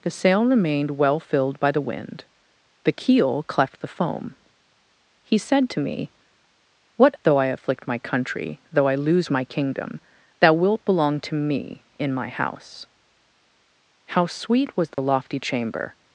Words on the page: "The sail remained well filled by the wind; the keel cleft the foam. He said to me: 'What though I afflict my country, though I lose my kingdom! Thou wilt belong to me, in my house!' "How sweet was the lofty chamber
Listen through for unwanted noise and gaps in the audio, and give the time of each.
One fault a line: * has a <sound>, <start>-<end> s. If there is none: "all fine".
* has a dropout, 14.9-15.0 s